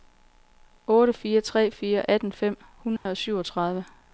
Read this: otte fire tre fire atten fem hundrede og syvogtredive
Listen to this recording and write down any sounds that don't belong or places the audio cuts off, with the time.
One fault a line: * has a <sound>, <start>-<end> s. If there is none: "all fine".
* has a dropout, 3.0-3.1 s